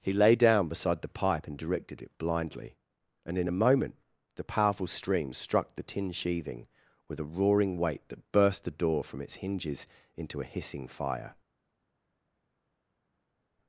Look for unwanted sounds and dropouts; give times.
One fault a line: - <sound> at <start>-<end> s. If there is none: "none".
none